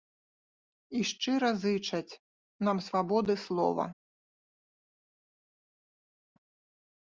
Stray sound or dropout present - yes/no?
no